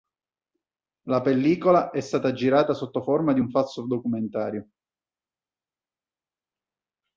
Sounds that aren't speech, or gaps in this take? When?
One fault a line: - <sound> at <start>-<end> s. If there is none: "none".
none